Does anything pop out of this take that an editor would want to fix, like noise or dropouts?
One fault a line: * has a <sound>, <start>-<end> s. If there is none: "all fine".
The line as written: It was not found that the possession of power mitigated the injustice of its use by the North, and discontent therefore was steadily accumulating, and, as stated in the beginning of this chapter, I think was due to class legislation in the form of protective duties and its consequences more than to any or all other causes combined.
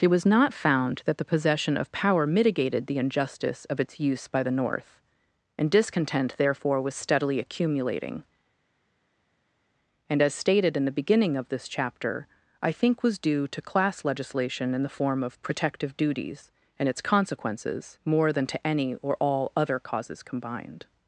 all fine